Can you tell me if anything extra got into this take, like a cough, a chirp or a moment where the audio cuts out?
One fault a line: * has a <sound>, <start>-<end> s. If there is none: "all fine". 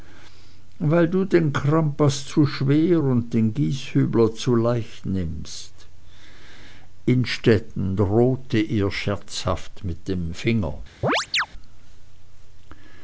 * has a chirp, 11.0-11.5 s